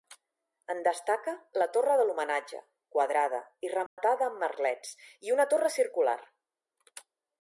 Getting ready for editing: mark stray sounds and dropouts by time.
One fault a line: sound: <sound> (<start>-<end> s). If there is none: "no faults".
sound: dropout (3.9-4.0 s)